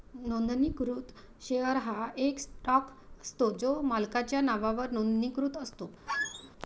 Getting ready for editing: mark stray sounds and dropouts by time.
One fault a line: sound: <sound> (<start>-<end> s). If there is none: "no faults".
sound: squeak (6.1-6.5 s)